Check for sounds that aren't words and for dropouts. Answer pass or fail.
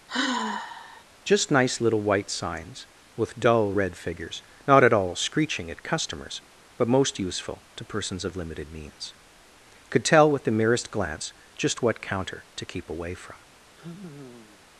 fail